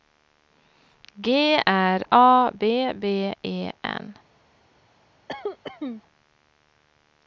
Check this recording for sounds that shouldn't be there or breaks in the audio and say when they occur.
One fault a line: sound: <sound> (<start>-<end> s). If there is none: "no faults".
sound: cough (5.3-6.0 s)